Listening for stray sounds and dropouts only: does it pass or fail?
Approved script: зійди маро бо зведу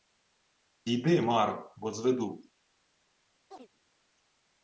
fail